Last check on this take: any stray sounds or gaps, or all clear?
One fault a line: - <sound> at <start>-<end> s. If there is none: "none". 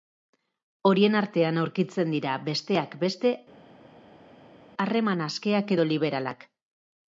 none